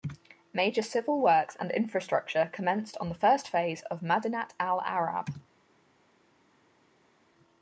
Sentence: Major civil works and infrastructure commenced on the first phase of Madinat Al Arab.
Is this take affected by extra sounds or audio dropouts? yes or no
no